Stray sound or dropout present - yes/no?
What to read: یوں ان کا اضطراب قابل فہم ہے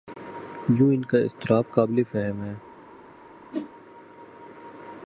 yes